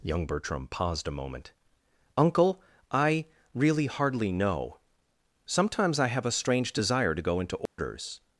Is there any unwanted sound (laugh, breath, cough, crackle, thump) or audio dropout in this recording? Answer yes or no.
yes